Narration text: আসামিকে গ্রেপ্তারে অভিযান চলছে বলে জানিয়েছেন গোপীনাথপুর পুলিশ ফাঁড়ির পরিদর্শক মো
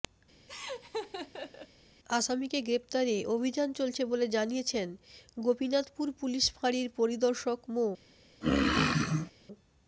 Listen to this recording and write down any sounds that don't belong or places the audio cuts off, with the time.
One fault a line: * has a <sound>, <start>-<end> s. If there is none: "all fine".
* has a laugh, 0.5-1.7 s
* has a throat clearing, 8.4-9.3 s